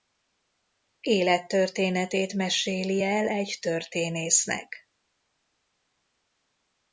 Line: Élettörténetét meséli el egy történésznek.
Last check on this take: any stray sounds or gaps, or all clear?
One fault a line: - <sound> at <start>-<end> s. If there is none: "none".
none